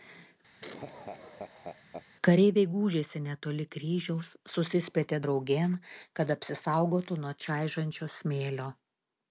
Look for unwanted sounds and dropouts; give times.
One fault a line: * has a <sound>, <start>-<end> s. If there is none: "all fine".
* has a laugh, 0.6-2.1 s